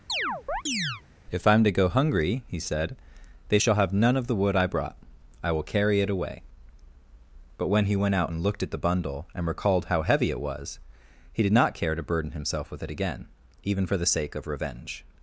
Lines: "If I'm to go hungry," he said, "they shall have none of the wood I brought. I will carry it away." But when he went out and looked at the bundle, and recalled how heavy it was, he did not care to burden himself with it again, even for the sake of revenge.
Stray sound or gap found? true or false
true